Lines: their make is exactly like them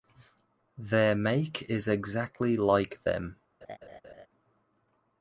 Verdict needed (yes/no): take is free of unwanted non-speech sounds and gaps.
no